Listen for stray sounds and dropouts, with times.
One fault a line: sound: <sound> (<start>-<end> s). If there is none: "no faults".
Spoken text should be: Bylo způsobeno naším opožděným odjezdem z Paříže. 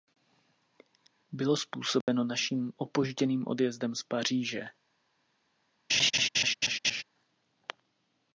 sound: dropout (2.0-2.1 s)
sound: laugh (5.9-7.0 s)